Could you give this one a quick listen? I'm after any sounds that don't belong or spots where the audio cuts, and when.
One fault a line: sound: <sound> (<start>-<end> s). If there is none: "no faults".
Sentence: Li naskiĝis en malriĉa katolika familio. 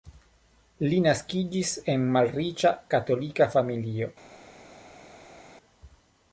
no faults